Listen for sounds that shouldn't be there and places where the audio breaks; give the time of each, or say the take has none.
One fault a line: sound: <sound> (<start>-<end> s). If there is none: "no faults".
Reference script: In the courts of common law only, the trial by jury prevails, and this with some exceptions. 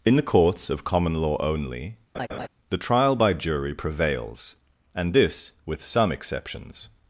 sound: laugh (2.1-2.5 s)